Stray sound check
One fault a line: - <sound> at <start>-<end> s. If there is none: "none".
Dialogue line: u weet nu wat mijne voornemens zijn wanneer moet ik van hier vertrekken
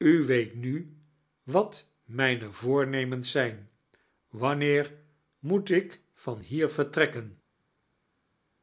none